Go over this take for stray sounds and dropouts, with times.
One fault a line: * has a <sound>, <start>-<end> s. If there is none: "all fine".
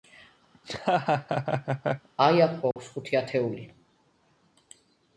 * has a laugh, 0.5-2.1 s
* has a dropout, 2.7-2.8 s